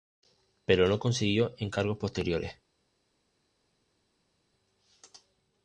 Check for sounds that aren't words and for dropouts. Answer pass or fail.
pass